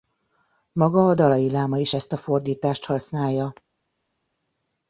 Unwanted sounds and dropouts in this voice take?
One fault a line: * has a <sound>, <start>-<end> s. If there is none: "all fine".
all fine